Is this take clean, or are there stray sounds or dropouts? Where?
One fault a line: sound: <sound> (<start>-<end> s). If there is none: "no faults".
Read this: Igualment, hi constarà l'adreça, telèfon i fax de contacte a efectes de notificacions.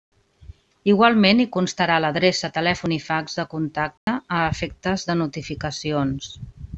sound: dropout (4.0-4.1 s)